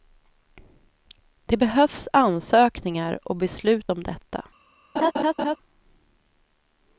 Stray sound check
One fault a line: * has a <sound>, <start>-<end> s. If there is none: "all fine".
* has a laugh, 5.0-5.6 s